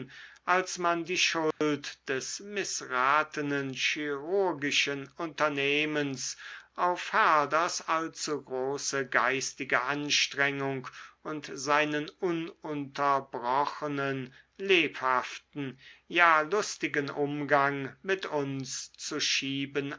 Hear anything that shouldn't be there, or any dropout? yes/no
yes